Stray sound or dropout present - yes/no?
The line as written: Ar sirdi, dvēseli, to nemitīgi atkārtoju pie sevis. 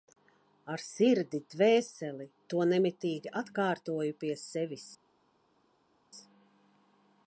no